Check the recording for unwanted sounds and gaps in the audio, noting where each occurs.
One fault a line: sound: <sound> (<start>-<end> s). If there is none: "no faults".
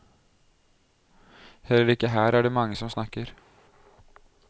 no faults